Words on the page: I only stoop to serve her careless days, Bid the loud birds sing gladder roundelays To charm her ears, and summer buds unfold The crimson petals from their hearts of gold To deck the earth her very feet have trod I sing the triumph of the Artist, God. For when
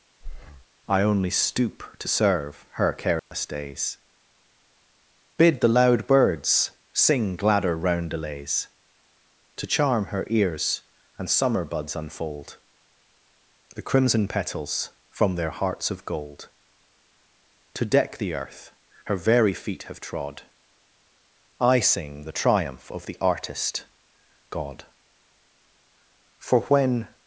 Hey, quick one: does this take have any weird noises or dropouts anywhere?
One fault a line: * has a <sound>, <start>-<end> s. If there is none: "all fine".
* has a breath, 0.2-0.7 s
* has a dropout, 3.2-3.3 s